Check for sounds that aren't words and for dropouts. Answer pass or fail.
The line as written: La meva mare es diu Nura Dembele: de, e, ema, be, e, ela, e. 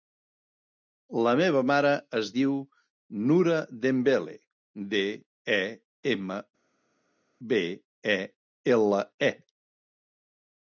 pass